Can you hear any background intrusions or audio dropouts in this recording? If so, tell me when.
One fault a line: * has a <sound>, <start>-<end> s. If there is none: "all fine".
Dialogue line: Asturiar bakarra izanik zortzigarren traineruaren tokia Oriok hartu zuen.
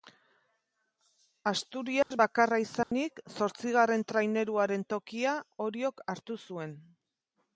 * has a dropout, 2.0-2.1 s
* has a dropout, 2.8-2.9 s